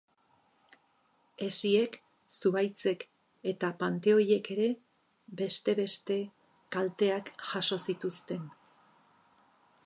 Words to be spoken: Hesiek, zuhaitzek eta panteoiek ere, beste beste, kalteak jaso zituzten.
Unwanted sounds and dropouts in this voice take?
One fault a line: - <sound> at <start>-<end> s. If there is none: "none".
none